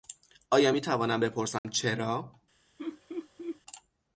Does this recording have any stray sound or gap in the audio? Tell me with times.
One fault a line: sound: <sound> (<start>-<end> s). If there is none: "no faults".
sound: dropout (1.6-1.6 s)
sound: laugh (2.8-3.6 s)